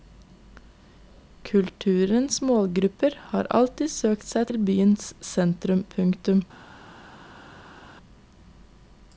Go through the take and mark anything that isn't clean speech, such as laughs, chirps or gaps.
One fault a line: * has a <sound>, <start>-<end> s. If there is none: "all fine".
all fine